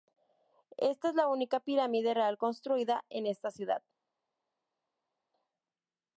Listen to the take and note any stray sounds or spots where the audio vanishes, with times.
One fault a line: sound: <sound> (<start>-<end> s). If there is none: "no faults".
no faults